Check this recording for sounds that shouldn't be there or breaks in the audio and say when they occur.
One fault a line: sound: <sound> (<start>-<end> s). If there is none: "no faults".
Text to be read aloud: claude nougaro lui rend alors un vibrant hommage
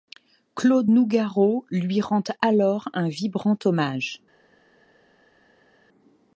no faults